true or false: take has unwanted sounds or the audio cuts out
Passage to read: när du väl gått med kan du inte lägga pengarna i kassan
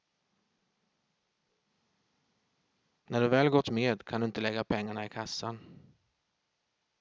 false